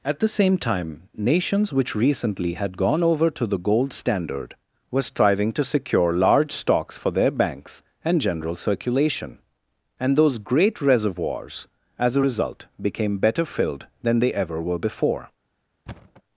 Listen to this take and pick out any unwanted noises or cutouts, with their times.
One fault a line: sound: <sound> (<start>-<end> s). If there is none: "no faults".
sound: thud (15.9-16.2 s)